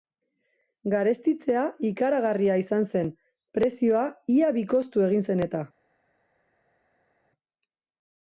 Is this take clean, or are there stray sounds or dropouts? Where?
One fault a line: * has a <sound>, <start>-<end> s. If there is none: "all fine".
all fine